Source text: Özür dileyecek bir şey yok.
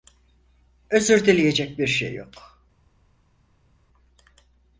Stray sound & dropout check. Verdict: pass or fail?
pass